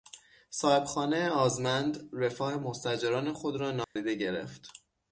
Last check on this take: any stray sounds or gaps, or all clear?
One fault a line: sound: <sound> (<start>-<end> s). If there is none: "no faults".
sound: dropout (3.8-4.0 s)